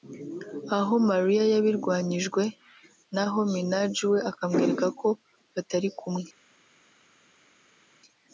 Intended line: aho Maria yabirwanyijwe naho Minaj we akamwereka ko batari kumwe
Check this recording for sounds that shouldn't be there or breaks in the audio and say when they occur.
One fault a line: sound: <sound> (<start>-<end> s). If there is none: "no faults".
no faults